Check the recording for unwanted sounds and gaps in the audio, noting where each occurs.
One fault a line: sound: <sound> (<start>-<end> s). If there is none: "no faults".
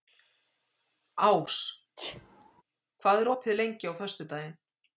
sound: sneeze (2.0-2.6 s)